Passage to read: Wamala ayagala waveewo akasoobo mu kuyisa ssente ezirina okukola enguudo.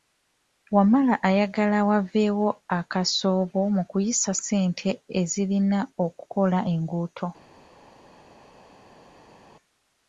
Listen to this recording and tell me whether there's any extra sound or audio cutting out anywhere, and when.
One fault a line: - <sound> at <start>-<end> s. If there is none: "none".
none